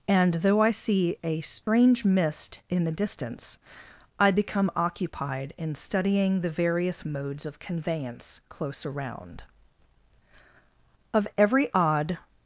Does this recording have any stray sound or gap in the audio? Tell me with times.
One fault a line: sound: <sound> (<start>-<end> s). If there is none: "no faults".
sound: dropout (1.6-1.7 s)